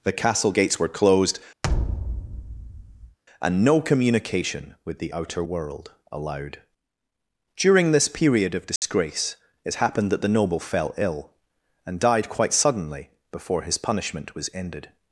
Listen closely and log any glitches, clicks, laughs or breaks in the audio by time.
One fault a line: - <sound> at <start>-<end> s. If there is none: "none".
- thud at 1.6-3.2 s
- dropout at 8.8-8.8 s